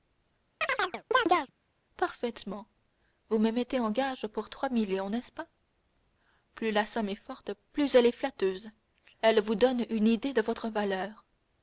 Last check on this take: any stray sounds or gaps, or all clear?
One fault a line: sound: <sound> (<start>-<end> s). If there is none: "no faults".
sound: chirp (0.6-1.5 s)